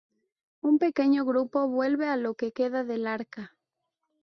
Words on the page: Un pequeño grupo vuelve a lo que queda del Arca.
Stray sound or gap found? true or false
false